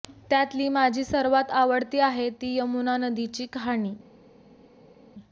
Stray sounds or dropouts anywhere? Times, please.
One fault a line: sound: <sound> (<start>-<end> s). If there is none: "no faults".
no faults